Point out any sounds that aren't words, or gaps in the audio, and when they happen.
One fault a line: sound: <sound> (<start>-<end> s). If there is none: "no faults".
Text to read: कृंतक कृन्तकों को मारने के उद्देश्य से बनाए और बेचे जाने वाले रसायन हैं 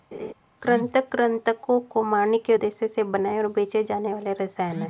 sound: laugh (0.1-0.3 s)